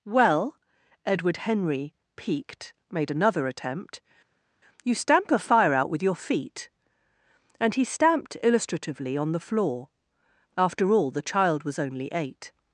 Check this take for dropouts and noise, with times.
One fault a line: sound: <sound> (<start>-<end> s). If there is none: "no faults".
no faults